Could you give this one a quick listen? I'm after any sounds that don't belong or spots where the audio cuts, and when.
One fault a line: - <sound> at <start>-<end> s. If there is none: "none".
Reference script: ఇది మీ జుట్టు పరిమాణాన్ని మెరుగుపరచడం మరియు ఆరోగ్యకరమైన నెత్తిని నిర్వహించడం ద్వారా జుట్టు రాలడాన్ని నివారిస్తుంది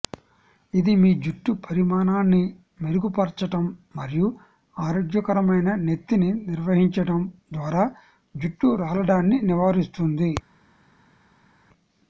none